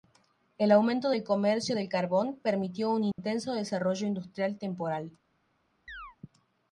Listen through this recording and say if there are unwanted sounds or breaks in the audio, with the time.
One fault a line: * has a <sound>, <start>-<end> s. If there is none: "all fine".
* has a dropout, 3.1-3.2 s
* has a chirp, 5.9-6.2 s